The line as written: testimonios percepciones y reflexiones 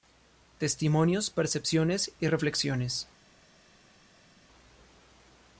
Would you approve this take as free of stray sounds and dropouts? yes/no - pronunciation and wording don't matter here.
yes